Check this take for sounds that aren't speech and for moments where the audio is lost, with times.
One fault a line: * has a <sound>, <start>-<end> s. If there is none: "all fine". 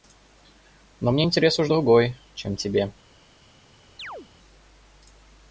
* has a chirp, 4.0-4.3 s